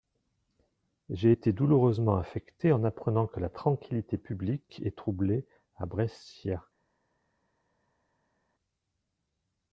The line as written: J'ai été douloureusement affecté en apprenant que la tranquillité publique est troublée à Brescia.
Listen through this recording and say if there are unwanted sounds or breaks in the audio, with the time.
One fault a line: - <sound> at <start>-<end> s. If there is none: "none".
none